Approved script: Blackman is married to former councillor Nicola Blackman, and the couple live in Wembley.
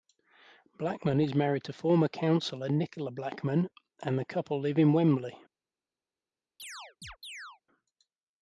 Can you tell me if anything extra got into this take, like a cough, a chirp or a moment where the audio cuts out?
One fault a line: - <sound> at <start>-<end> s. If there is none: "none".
- chirp at 6.6-7.6 s